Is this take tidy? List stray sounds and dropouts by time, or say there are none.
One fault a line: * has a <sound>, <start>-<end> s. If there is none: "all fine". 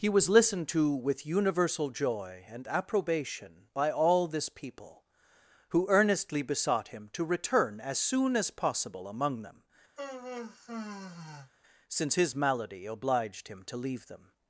* has a sigh, 10.0-11.5 s